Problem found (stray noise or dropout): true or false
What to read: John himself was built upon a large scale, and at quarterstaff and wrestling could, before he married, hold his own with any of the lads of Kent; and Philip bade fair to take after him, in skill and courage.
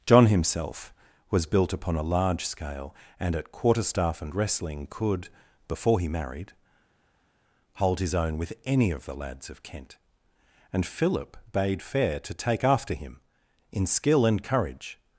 false